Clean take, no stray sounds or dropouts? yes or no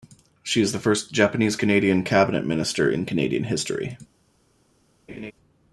no